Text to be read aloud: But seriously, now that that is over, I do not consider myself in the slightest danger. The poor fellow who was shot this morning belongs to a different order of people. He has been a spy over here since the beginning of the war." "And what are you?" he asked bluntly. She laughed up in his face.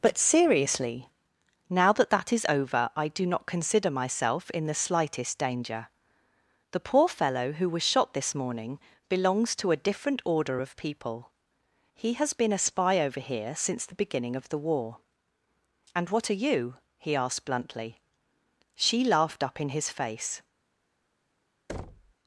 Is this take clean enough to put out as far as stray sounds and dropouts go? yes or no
no